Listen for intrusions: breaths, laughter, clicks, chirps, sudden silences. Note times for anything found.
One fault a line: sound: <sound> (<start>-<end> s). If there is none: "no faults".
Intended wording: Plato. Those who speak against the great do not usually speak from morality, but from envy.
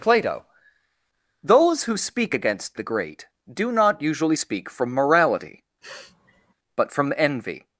sound: sniff (5.8-6.5 s)